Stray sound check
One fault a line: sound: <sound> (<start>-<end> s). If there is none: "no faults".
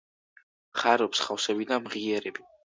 no faults